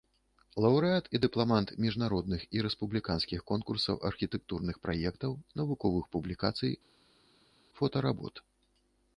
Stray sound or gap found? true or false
false